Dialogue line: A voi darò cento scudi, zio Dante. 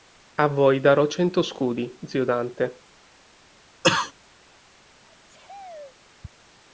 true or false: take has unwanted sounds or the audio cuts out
true